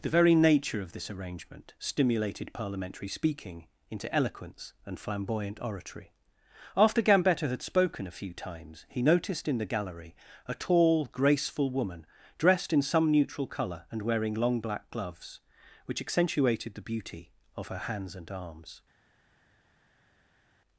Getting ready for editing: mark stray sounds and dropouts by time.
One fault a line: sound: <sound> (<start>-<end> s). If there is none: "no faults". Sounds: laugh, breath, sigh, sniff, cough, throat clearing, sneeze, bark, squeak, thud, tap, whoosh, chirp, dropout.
no faults